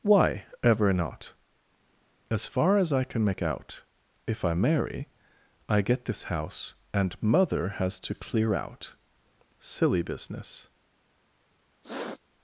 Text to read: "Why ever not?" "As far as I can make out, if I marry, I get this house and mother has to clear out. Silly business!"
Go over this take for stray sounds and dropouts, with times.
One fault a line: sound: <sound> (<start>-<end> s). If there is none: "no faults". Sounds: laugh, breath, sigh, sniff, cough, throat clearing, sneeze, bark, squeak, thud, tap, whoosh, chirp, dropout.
sound: sniff (11.8-12.2 s)